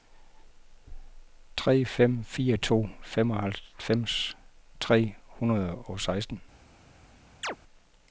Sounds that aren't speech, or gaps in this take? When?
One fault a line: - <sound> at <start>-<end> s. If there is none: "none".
- chirp at 7.4-7.6 s